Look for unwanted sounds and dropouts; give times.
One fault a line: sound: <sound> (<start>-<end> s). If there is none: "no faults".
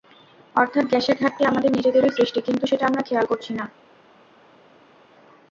no faults